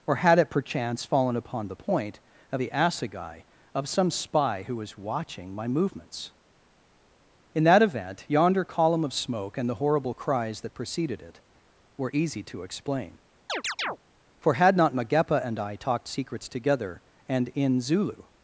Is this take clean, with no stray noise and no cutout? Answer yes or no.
no